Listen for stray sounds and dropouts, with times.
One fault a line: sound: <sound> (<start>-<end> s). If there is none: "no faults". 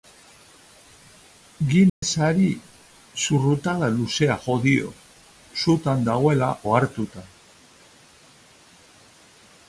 sound: dropout (1.9-2.0 s)